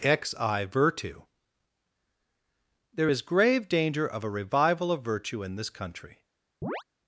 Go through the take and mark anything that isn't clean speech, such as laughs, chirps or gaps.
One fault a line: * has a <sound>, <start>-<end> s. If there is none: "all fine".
* has a chirp, 6.6-6.8 s